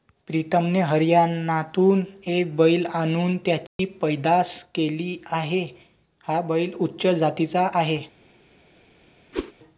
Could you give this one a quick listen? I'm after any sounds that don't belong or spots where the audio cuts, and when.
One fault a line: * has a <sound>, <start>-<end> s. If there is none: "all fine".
* has a dropout, 3.7-3.8 s
* has a whoosh, 9.3-9.5 s